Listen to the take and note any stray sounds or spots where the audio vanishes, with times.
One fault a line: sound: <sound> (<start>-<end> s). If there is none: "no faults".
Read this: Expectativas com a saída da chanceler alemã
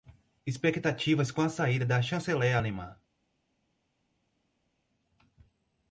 no faults